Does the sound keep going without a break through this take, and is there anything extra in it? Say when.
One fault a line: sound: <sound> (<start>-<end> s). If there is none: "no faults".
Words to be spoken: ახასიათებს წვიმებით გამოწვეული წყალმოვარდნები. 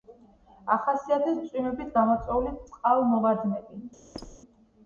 sound: squeak (4.1-4.4 s)